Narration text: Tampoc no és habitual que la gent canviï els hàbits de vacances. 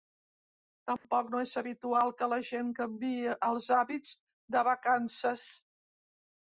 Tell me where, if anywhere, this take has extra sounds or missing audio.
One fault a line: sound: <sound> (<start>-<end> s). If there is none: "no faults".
sound: dropout (1.0-1.0 s)